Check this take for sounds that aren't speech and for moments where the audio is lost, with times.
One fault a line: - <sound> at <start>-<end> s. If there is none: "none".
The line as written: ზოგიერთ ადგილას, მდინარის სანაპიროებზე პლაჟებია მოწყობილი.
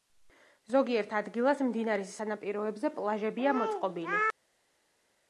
none